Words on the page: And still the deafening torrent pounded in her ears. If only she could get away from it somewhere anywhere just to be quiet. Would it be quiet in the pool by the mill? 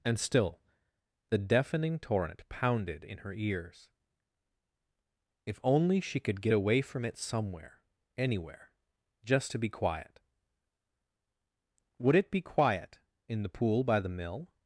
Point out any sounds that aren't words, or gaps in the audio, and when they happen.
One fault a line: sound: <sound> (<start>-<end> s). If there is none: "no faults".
no faults